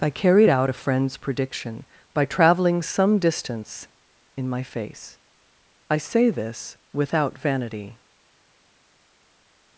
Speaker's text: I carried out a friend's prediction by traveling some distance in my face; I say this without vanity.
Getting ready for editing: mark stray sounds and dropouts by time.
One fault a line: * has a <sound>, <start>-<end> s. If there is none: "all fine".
all fine